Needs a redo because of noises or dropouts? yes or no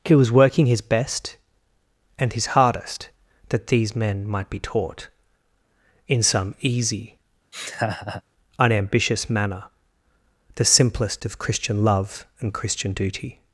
yes